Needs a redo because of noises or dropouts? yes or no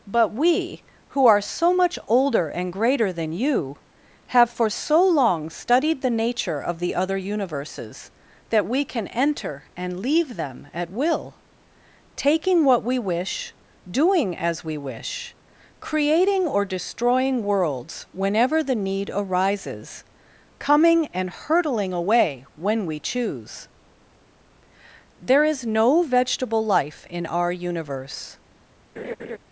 yes